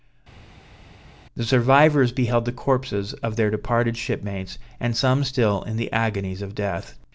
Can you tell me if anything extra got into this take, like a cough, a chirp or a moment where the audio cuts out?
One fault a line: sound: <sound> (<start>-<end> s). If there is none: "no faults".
no faults